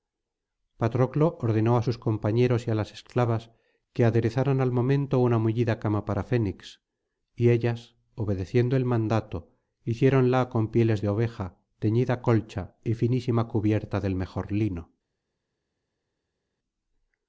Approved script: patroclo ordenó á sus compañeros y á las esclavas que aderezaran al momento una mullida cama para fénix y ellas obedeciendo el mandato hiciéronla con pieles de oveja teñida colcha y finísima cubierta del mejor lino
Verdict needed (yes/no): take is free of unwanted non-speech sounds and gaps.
yes